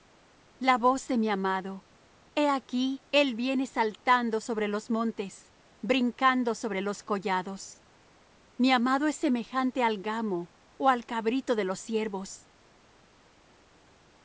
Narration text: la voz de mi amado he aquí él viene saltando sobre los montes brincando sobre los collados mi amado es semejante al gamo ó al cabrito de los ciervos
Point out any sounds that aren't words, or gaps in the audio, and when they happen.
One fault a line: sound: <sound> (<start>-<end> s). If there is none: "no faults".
no faults